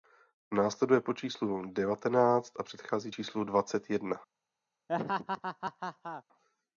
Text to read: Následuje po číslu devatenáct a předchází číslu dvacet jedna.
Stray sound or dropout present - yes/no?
yes